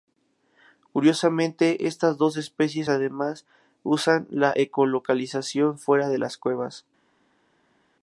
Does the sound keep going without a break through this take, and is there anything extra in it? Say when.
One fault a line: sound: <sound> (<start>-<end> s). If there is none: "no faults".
no faults